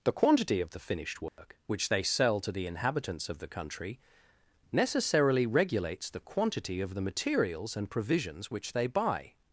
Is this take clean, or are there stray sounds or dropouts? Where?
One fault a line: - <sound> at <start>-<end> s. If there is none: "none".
- dropout at 1.3-1.4 s